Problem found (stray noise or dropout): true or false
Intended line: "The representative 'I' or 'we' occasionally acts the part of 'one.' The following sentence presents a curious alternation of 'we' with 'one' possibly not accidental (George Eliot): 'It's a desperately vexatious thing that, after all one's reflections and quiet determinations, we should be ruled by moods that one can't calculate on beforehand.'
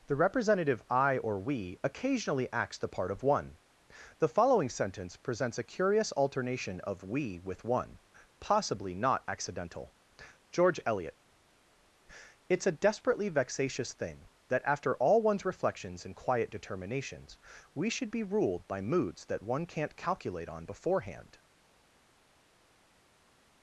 false